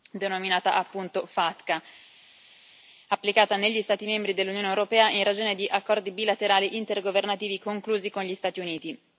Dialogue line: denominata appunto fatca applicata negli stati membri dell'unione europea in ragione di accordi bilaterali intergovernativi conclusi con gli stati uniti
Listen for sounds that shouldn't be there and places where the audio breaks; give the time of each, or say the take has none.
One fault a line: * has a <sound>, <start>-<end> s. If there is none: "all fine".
all fine